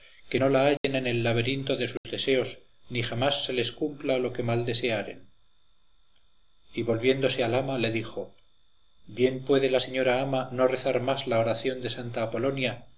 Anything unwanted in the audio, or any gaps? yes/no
yes